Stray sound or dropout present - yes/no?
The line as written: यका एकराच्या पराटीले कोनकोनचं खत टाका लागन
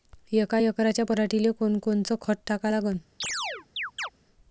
yes